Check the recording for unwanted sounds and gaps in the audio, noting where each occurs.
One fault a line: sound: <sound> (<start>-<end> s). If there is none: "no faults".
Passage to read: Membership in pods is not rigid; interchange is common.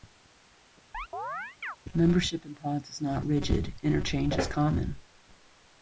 sound: chirp (0.9-1.8 s)